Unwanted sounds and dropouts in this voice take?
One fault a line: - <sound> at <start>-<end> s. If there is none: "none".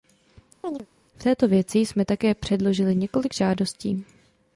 - chirp at 0.6-0.9 s